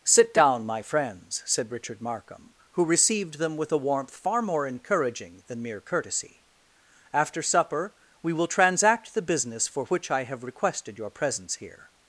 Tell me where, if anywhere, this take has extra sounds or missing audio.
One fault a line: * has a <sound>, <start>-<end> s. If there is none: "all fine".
all fine